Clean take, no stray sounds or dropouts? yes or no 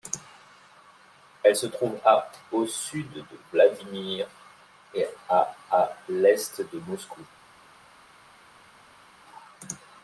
yes